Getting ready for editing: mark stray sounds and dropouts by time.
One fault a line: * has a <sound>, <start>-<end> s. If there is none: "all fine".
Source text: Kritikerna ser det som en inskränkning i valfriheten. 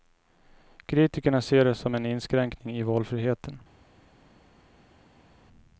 all fine